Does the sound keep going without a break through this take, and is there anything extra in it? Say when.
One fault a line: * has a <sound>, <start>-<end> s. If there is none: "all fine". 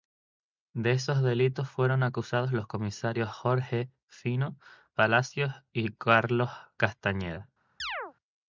* has a chirp, 7.8-8.1 s